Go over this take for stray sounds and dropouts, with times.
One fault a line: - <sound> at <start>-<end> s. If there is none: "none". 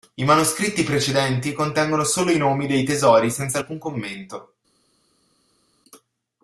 none